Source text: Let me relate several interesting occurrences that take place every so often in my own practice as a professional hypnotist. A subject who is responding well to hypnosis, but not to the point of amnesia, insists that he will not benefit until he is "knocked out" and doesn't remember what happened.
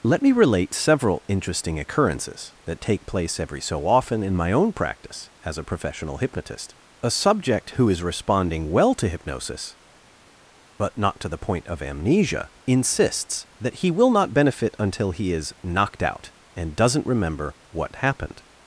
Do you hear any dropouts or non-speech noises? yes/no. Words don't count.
no